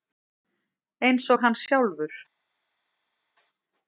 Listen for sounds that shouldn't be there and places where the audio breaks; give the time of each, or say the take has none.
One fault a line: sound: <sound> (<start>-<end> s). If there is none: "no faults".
no faults